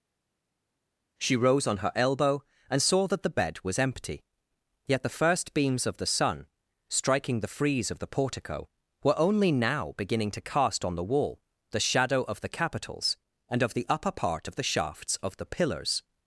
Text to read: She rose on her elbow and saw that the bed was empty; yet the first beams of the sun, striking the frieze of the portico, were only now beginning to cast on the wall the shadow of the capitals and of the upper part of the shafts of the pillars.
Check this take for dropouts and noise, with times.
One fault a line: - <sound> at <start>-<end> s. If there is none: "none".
none